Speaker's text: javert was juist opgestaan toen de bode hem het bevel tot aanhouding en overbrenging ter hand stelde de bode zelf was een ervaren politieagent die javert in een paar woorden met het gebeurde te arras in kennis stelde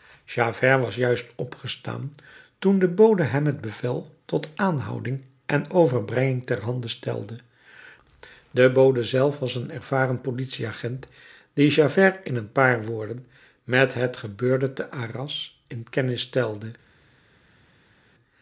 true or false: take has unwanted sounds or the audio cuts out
false